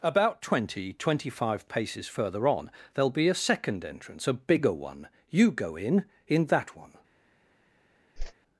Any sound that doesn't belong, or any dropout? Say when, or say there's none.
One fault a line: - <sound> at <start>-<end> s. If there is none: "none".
- whoosh at 8.2-8.3 s